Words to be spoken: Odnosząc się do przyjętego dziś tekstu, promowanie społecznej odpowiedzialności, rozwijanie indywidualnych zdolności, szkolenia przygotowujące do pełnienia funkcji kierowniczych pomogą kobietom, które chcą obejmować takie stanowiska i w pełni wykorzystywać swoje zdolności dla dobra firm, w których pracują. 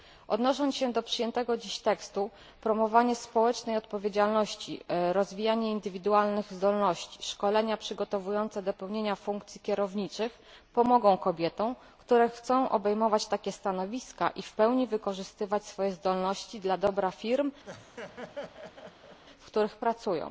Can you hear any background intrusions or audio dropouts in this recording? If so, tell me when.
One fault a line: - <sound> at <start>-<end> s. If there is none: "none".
- laugh at 17.6-19.2 s